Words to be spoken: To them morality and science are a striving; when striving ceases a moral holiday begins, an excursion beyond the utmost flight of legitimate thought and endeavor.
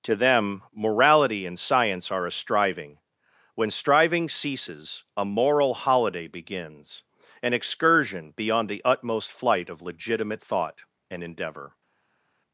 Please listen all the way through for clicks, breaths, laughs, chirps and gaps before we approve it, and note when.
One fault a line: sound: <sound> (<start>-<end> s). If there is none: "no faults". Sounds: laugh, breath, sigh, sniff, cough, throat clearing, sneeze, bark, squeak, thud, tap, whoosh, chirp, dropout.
no faults